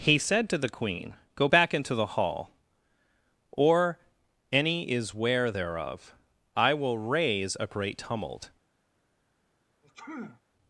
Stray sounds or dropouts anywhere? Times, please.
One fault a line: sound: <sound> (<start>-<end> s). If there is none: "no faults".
sound: sneeze (9.8-10.4 s)